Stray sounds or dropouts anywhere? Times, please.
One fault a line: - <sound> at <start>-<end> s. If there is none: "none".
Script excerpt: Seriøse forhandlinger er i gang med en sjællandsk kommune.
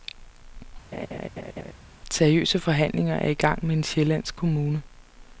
- laugh at 0.9-1.7 s